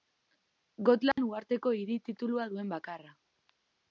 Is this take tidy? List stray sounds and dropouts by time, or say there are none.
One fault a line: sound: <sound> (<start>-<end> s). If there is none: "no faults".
sound: dropout (1.1-1.2 s)